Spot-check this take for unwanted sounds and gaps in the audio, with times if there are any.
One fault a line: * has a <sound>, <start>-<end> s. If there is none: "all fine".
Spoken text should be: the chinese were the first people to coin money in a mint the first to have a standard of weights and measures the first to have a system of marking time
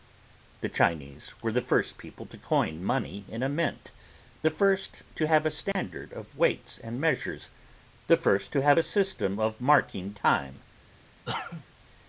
* has a dropout, 5.7-5.8 s
* has a cough, 11.3-11.7 s